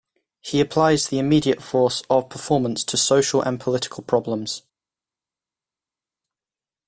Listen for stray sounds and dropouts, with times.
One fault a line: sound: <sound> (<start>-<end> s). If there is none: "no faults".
no faults